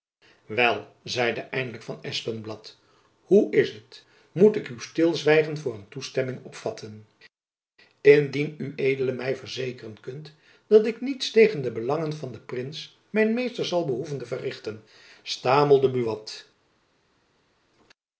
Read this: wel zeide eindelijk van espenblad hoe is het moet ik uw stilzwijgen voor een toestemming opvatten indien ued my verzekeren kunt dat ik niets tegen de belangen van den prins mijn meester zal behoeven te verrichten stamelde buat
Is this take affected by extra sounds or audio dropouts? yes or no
no